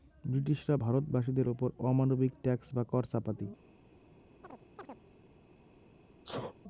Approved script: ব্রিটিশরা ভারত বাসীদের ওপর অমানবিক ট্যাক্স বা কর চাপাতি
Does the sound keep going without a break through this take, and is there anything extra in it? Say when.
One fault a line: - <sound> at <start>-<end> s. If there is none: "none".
- chirp at 4.4-5.0 s
- sneeze at 6.2-6.6 s